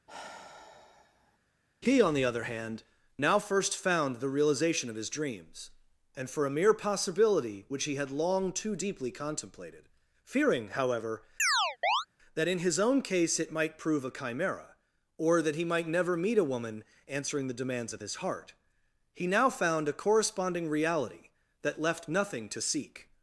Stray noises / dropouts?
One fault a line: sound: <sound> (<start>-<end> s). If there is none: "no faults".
sound: sigh (0.1-1.4 s)
sound: chirp (11.4-12.1 s)